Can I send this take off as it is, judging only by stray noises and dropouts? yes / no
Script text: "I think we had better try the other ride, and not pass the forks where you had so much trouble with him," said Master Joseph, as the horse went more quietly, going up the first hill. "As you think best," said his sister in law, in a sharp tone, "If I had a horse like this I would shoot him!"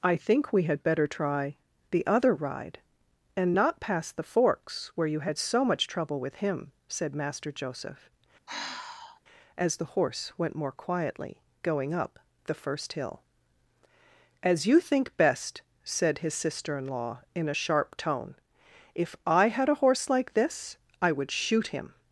no